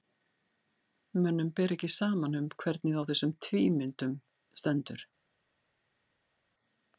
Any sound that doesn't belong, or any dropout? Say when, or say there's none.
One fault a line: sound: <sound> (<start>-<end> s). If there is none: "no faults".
no faults